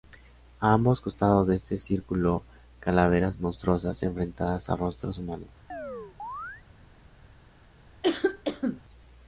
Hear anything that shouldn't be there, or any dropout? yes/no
yes